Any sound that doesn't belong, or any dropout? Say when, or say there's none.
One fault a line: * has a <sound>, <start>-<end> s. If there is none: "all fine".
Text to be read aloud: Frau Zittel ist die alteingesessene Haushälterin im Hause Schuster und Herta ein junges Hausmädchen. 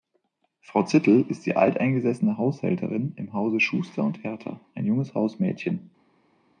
all fine